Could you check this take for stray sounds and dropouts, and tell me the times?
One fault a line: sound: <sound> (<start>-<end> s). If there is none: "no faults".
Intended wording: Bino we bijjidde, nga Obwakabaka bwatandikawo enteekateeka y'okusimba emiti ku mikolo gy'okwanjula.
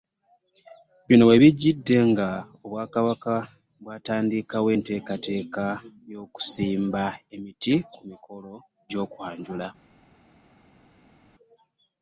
no faults